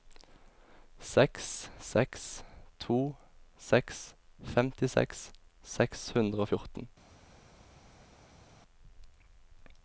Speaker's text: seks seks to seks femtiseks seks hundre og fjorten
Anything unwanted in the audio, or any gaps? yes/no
no